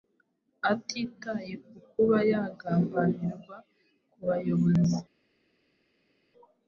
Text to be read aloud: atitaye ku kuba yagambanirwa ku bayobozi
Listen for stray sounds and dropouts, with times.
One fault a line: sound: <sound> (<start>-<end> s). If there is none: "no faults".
no faults